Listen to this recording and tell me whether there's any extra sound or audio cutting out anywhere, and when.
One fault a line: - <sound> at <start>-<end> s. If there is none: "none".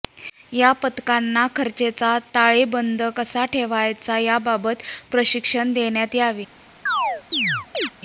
- chirp at 6.9-7.9 s